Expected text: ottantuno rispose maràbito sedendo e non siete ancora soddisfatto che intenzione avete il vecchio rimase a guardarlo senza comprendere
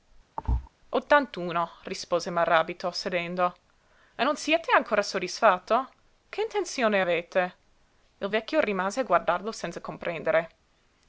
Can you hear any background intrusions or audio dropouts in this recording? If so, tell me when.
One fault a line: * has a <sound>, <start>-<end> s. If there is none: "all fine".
* has a thud, 0.4-0.7 s